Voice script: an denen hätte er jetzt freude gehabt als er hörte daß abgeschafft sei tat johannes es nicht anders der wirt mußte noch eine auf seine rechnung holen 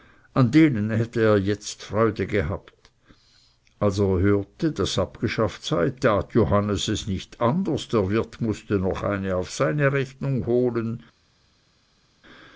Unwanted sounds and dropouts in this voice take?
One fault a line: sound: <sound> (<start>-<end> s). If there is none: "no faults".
no faults